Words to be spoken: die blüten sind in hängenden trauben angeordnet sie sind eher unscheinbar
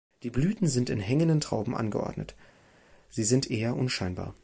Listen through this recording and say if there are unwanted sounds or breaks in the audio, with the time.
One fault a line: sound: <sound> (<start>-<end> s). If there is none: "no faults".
no faults